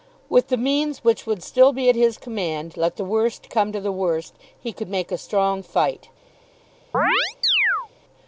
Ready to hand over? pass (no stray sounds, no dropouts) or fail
fail